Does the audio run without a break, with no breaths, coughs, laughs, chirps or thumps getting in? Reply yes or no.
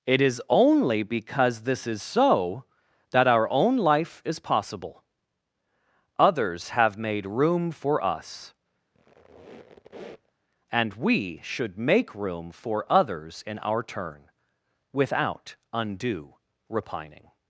no